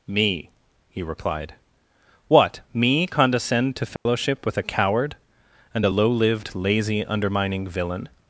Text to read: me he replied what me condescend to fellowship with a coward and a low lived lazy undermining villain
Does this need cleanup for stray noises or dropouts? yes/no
yes